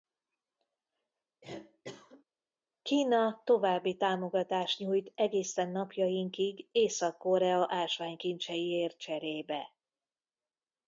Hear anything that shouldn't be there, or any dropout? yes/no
yes